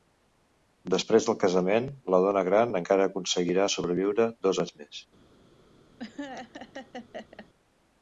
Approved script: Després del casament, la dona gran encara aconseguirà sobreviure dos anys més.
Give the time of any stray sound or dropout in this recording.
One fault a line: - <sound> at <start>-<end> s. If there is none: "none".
- laugh at 6.0-7.5 s